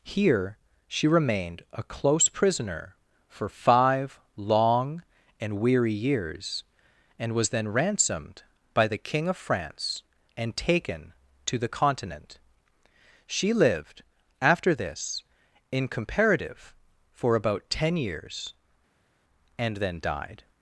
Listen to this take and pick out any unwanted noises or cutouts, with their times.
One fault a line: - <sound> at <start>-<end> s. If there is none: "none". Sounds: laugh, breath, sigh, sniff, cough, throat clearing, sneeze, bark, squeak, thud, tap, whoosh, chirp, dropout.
none